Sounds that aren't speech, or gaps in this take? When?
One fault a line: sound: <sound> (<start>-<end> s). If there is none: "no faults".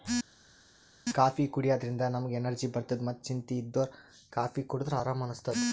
no faults